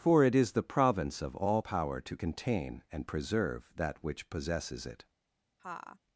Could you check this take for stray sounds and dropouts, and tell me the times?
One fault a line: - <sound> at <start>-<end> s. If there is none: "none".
- laugh at 5.6-6.0 s